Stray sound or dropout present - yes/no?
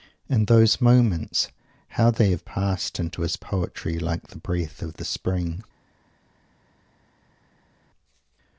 no